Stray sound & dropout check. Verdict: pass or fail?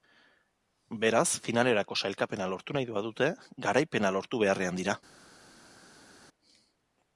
pass